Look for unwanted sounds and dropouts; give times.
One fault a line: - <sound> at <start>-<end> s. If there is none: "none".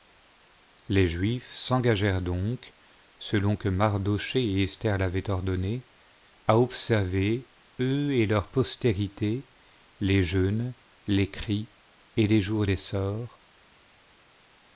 none